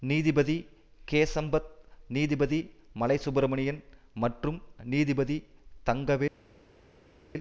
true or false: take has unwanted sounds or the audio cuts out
false